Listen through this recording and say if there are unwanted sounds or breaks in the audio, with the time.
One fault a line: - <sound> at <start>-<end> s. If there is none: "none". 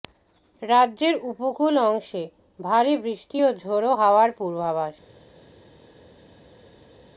none